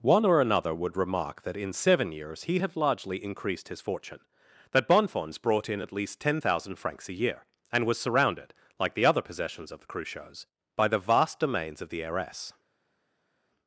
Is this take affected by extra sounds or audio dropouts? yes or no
no